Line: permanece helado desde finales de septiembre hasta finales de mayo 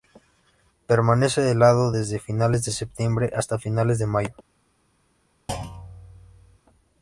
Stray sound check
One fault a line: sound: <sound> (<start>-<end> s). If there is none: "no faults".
sound: thud (5.5-6.6 s)